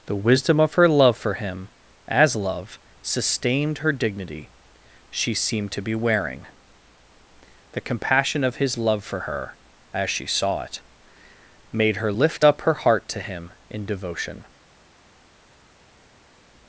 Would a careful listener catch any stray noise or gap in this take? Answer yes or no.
no